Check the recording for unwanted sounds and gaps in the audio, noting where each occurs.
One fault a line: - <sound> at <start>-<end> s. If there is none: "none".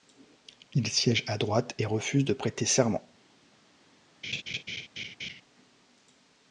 - laugh at 4.2-5.4 s